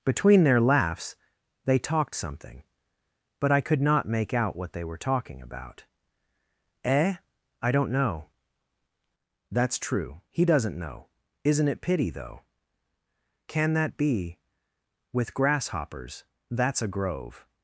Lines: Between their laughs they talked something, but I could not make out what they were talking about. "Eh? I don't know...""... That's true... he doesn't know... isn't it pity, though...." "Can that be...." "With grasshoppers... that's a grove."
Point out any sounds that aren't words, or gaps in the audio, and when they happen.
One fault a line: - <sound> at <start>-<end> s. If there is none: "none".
none